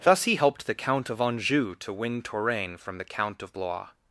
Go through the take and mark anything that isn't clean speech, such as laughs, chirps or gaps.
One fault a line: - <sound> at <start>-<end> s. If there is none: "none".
none